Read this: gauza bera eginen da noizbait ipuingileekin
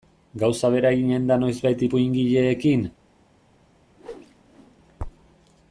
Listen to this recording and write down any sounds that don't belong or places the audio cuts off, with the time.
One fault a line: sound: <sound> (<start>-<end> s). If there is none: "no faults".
sound: whoosh (4.0-4.8 s)